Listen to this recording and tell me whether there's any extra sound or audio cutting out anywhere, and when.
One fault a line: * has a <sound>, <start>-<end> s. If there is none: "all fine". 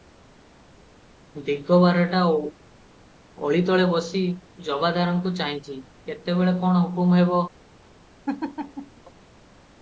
* has a laugh, 8.3-9.0 s